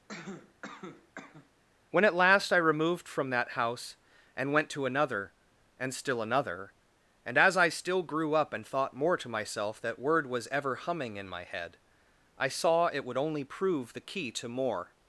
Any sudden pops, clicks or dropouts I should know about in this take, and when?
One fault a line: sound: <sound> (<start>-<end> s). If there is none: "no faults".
sound: cough (0.1-1.5 s)